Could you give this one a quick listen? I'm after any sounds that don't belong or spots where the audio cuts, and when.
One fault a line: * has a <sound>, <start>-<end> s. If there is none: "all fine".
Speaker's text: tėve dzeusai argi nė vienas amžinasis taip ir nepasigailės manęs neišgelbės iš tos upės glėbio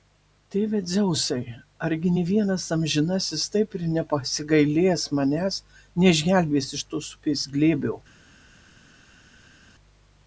all fine